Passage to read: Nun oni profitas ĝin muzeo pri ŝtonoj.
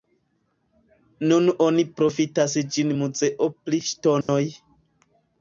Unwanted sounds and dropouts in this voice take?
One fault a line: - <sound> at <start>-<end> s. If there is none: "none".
- dropout at 4.2-4.3 s